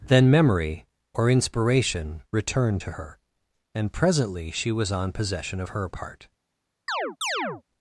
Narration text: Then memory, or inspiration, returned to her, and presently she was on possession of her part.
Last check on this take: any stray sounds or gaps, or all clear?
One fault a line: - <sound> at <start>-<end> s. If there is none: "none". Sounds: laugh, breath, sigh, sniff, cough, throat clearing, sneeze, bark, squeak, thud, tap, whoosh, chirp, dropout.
- chirp at 6.9-7.6 s